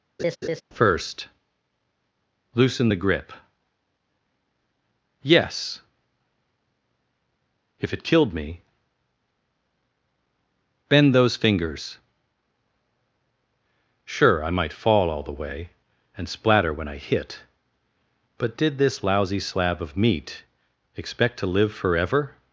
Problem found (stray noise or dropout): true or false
true